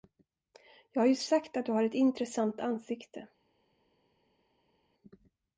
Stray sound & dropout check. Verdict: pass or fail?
pass